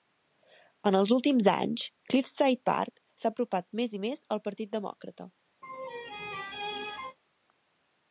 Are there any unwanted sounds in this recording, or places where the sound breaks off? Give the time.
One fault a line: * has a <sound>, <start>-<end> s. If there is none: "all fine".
* has a laugh, 5.6-7.2 s